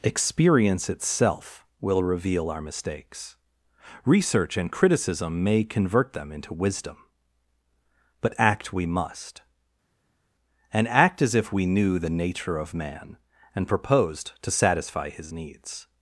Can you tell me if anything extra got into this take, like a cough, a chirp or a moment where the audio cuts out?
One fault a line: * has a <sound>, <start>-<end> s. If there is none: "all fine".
all fine